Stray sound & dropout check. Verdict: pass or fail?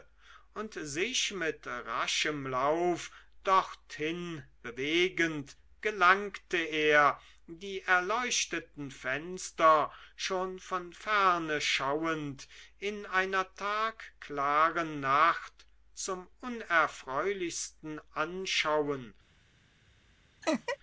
fail